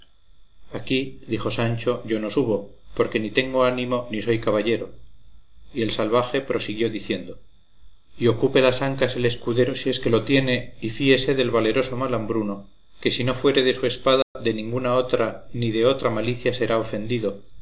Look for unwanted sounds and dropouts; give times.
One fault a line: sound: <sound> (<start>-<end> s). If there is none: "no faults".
sound: dropout (14.2-14.4 s)